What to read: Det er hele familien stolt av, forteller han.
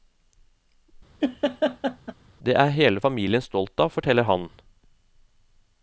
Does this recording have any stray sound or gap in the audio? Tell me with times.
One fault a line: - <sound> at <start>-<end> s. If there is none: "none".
- laugh at 1.2-2.1 s